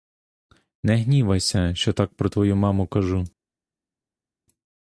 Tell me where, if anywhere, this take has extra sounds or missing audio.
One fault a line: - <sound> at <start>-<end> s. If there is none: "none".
none